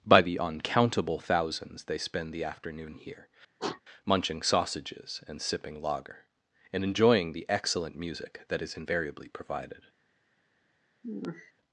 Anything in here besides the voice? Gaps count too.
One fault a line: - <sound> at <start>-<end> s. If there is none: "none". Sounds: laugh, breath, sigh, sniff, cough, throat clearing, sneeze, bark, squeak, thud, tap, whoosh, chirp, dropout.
- sniff at 3.6-3.8 s
- sigh at 11.0-11.5 s